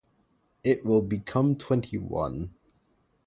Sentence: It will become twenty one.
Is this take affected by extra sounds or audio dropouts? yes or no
no